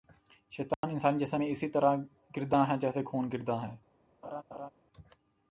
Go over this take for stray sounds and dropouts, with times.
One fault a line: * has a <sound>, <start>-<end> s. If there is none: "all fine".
* has a dropout, 0.7-0.8 s
* has a laugh, 4.2-4.7 s